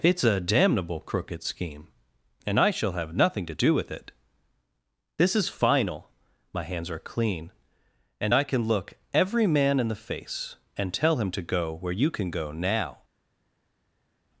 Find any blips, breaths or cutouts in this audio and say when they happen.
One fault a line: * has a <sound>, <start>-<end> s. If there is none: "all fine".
all fine